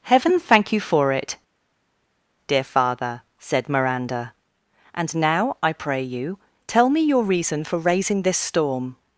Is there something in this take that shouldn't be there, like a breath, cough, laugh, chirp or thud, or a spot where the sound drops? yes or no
no